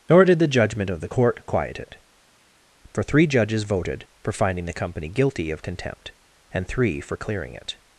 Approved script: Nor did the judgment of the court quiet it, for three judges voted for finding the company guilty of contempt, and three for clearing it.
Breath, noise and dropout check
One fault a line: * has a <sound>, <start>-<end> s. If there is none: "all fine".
all fine